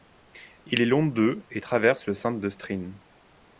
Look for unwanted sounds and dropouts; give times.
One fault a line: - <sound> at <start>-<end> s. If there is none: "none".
none